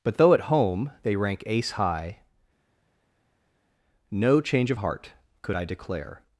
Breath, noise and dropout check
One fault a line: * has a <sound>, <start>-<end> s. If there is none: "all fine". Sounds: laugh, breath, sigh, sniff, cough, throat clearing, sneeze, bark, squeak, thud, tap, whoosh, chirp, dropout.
all fine